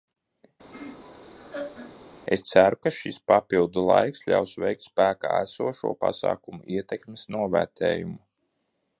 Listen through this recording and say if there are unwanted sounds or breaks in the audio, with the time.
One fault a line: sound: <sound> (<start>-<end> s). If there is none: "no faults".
sound: laugh (0.7-2.0 s)